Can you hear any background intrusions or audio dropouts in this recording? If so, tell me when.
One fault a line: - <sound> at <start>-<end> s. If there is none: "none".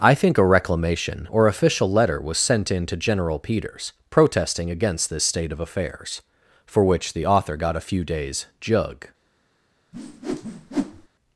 - whoosh at 9.9-11.1 s